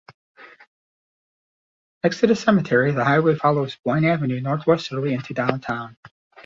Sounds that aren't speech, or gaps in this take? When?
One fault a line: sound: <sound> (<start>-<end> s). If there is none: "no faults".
no faults